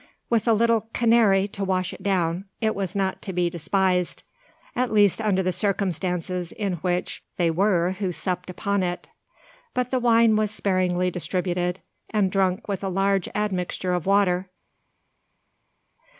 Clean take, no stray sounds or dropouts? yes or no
yes